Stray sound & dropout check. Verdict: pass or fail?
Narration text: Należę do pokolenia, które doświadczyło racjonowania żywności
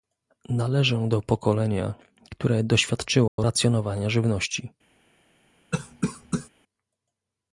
fail